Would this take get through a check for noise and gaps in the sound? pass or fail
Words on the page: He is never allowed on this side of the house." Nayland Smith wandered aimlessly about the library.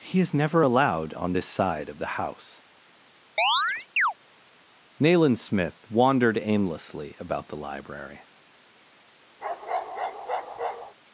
fail